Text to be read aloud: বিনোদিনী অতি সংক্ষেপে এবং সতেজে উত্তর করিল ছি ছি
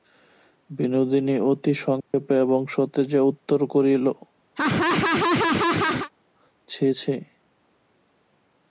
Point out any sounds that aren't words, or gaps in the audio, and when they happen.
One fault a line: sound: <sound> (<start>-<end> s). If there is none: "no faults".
sound: dropout (2.0-2.1 s)
sound: laugh (4.5-6.1 s)